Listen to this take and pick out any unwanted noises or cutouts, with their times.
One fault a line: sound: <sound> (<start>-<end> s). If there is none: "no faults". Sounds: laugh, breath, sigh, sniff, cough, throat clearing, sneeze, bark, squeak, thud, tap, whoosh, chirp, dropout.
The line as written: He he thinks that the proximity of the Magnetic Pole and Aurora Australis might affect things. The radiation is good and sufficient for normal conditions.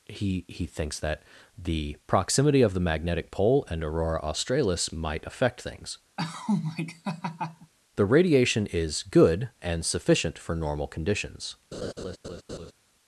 sound: laugh (6.2-7.7 s)
sound: laugh (11.7-12.7 s)